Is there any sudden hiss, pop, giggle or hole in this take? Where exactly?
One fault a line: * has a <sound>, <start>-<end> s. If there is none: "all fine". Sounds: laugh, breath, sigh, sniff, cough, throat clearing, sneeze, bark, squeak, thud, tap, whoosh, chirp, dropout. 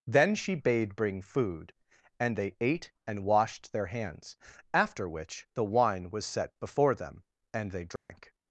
* has a dropout, 8.0-8.1 s